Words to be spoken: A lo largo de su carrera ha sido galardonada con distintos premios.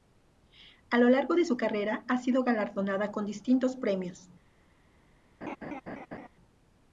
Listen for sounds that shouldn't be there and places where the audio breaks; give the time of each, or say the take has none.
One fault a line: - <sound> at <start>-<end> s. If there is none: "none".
- laugh at 5.4-6.3 s